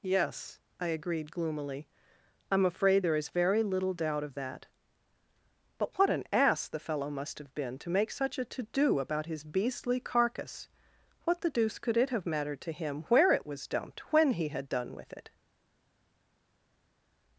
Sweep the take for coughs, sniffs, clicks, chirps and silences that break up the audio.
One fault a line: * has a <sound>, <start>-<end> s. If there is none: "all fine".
all fine